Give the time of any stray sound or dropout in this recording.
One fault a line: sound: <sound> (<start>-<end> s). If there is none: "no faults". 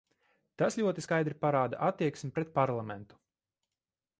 no faults